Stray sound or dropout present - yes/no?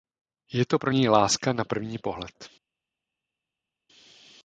no